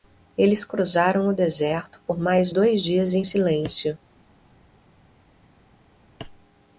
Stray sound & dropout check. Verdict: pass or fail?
pass